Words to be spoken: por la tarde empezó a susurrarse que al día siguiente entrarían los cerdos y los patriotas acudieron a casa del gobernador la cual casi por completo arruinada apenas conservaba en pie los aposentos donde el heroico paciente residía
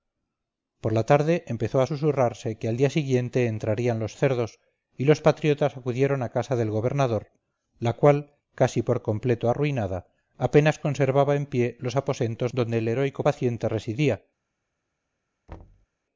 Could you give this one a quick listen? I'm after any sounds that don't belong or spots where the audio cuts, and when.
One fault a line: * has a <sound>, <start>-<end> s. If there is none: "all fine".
* has a thud, 15.5-15.9 s